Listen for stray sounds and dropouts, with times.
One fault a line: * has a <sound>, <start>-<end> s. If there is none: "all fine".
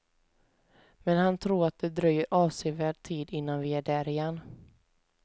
all fine